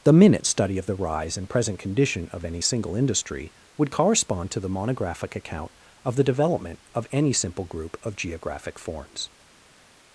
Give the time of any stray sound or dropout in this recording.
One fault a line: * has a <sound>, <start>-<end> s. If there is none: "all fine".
all fine